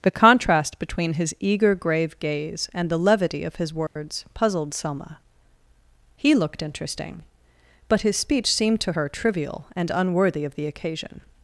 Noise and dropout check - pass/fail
fail